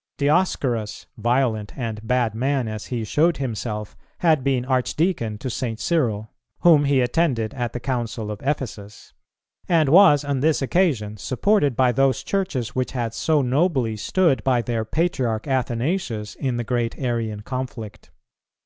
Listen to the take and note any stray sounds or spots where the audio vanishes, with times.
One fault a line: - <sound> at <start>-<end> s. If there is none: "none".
none